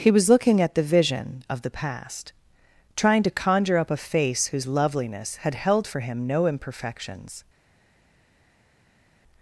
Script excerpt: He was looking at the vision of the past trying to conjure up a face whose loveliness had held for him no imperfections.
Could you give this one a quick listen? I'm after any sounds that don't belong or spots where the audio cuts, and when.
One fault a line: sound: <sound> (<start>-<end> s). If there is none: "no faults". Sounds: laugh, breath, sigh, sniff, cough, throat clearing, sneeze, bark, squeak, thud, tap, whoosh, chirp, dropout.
no faults